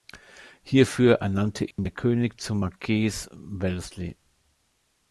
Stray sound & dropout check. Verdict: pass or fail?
fail